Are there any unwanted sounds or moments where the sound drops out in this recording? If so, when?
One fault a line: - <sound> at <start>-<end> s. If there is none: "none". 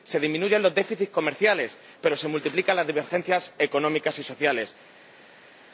none